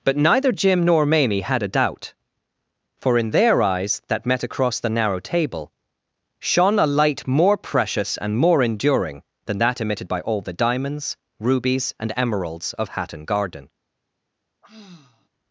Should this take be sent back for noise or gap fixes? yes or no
yes